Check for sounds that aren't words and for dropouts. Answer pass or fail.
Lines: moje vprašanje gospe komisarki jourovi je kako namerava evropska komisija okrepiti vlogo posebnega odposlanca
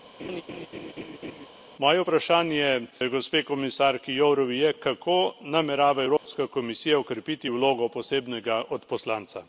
fail